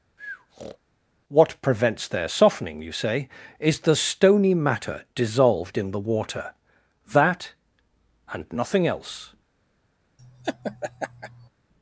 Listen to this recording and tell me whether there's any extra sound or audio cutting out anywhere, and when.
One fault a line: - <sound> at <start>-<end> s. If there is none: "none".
- breath at 0.2-0.8 s
- laugh at 10.2-11.5 s